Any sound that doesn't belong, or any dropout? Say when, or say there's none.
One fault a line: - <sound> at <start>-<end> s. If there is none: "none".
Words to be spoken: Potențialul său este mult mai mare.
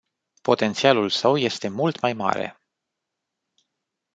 none